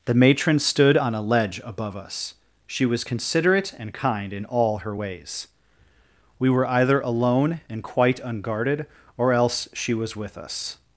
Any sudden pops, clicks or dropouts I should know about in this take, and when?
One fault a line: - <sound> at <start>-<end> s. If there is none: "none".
none